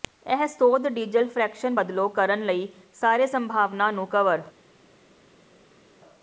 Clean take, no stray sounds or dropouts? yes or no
yes